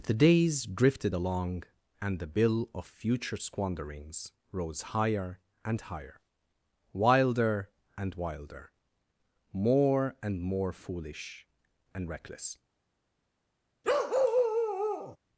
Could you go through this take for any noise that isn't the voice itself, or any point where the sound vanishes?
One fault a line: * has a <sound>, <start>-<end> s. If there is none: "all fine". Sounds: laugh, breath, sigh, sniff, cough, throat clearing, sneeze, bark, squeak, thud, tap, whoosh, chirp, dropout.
* has a bark, 13.8-15.2 s